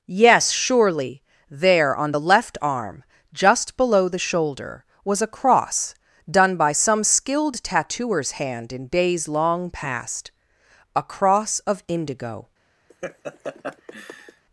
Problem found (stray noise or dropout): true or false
true